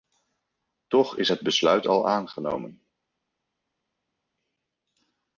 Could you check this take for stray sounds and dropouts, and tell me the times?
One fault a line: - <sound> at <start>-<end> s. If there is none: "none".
none